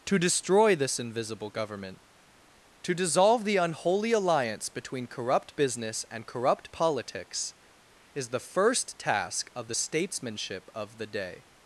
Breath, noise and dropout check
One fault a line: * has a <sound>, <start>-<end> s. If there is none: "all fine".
all fine